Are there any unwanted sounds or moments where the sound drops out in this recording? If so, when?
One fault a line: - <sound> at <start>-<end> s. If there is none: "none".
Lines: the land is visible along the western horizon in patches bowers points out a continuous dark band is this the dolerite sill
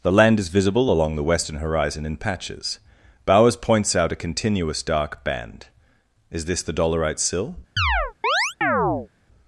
- chirp at 7.8-9.1 s